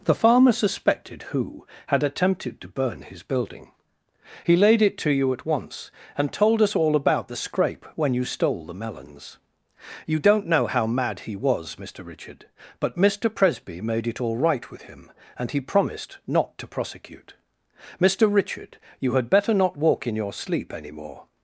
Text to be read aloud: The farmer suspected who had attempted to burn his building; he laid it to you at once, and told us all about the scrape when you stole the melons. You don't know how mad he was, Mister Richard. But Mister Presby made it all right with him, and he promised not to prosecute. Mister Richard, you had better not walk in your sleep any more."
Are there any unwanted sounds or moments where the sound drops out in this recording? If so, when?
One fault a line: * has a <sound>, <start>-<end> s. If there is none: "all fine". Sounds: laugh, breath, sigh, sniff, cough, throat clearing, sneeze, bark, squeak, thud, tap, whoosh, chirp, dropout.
all fine